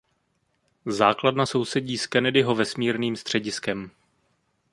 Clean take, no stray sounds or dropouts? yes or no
yes